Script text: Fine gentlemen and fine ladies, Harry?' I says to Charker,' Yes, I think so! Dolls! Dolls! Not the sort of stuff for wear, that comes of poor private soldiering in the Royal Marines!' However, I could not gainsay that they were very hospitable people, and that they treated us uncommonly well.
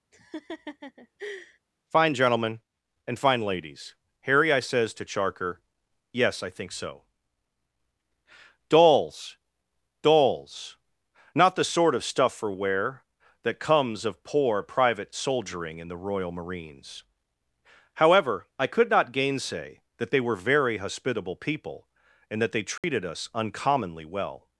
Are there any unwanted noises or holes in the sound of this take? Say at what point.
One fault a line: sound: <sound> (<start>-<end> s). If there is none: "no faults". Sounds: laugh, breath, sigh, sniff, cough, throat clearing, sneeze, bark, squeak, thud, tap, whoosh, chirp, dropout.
sound: laugh (0.1-1.6 s)
sound: dropout (22.8-22.8 s)